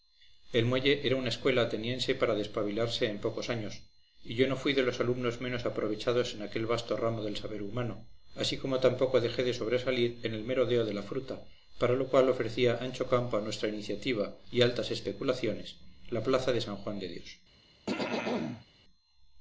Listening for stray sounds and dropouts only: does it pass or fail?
fail